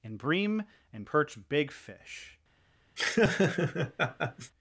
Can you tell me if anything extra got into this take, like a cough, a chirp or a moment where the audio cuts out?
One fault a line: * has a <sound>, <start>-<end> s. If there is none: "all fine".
* has a laugh, 3.0-4.5 s